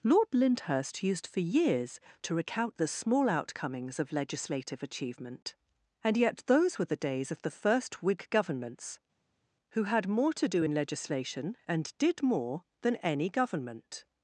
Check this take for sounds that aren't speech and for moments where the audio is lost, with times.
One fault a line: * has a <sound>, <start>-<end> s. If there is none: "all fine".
all fine